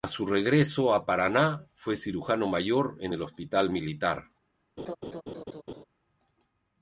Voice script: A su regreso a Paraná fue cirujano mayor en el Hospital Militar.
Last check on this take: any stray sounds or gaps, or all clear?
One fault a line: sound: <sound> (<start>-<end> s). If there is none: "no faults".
sound: laugh (4.8-5.8 s)